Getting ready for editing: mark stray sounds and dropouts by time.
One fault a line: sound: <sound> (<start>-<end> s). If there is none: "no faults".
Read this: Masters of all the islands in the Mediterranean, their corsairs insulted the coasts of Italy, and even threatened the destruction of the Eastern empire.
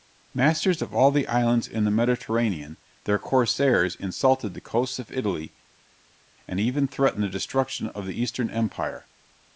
no faults